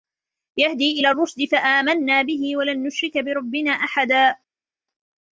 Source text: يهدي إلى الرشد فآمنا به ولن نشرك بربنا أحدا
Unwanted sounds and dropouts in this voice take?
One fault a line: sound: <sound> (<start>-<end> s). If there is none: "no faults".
no faults